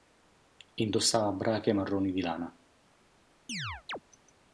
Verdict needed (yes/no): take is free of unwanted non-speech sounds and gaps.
no